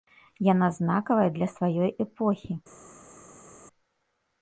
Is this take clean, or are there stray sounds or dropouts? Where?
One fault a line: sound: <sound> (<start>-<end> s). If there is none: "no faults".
no faults